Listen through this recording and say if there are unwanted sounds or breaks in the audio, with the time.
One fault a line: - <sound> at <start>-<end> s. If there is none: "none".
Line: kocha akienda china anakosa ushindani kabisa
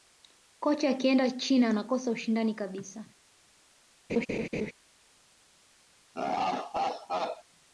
- laugh at 4.1-4.7 s
- laugh at 6.1-7.4 s